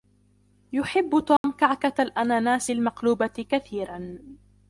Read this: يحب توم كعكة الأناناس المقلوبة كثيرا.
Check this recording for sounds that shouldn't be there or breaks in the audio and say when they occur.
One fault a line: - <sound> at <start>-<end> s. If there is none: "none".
- dropout at 1.4-1.4 s